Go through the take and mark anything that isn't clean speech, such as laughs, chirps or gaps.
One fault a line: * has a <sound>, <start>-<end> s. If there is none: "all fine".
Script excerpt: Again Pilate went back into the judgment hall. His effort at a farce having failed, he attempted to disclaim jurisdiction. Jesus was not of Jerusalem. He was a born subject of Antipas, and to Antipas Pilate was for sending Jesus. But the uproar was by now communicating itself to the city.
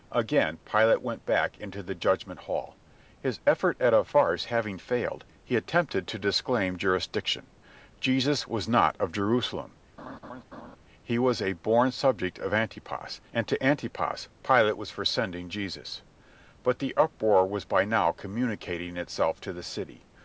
* has a laugh, 10.0-10.8 s